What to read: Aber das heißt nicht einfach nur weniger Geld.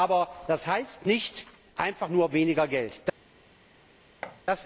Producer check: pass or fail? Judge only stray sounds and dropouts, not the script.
fail